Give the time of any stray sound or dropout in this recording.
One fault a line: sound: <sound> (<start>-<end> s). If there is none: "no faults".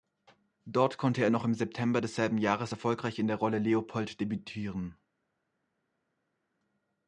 no faults